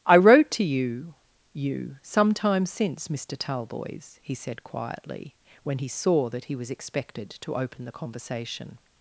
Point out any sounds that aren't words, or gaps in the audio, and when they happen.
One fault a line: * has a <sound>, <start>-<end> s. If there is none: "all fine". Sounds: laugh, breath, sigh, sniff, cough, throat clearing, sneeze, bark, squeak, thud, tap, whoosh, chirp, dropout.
all fine